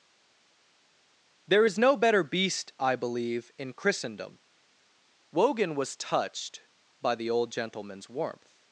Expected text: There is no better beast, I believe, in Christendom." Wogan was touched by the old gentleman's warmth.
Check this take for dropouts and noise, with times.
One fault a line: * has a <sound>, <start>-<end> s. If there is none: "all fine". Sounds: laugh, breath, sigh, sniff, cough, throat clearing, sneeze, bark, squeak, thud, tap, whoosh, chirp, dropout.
all fine